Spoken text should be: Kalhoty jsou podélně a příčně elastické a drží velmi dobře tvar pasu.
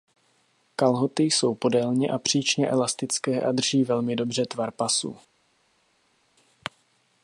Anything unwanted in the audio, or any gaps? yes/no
no